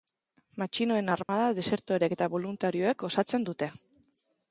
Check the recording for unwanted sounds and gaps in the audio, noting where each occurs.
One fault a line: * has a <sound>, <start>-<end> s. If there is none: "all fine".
* has a dropout, 1.2-1.3 s